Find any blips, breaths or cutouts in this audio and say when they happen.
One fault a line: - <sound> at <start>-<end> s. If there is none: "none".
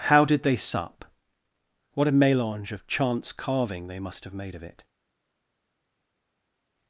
none